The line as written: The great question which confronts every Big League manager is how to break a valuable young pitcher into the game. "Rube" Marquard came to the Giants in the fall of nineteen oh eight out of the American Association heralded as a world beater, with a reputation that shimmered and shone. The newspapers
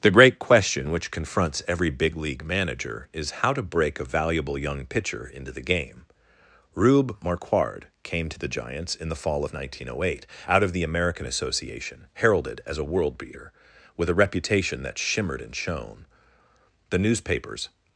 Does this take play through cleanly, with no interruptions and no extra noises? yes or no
yes